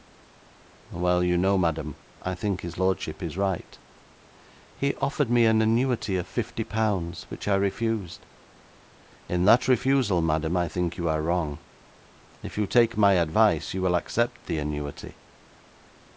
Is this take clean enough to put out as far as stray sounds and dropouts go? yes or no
yes